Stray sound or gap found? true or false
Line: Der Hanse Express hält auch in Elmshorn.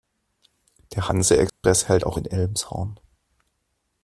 true